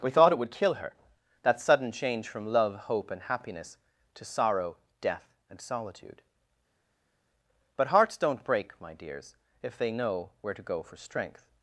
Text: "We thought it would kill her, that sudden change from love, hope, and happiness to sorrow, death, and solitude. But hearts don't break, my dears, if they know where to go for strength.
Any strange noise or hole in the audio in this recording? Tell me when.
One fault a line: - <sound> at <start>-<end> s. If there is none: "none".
none